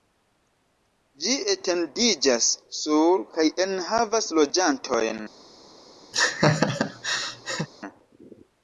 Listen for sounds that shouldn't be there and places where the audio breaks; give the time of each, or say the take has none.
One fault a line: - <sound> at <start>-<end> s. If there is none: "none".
- laugh at 6.1-7.7 s